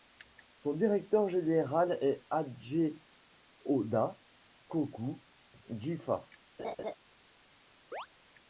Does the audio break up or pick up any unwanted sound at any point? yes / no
yes